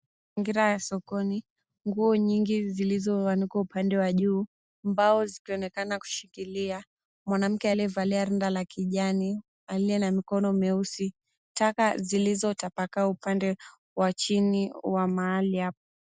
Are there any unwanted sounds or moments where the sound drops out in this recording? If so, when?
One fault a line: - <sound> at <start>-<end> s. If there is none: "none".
none